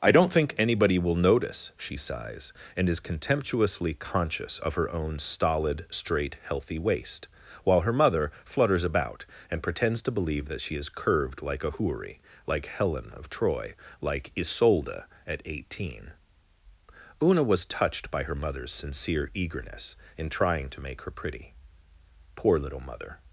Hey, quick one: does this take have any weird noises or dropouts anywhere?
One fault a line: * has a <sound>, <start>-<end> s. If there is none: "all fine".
all fine